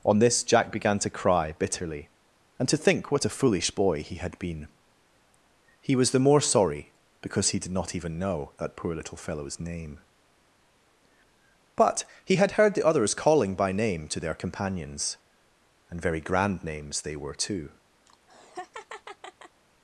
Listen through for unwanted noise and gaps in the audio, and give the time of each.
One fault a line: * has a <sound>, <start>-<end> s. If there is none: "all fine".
* has a laugh, 18.1-19.6 s